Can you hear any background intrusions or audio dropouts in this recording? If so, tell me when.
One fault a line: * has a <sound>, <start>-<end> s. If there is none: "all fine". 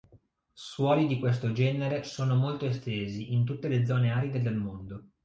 all fine